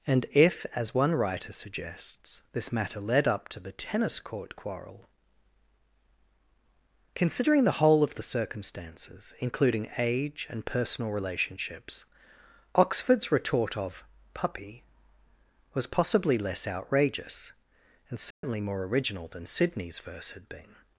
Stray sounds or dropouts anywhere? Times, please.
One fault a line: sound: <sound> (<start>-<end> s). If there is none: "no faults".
sound: dropout (18.3-18.4 s)